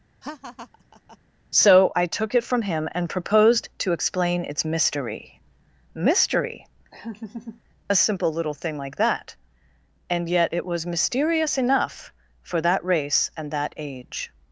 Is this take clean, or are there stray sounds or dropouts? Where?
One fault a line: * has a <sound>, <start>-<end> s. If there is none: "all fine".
* has a laugh, 0.2-1.2 s
* has a laugh, 6.9-7.6 s